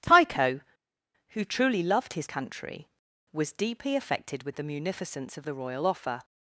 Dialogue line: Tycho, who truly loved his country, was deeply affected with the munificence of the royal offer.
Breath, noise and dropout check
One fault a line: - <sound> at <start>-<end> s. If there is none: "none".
none